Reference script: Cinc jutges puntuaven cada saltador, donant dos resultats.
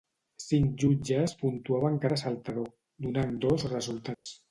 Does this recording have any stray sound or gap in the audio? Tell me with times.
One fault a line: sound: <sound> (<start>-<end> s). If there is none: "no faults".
sound: dropout (4.1-4.3 s)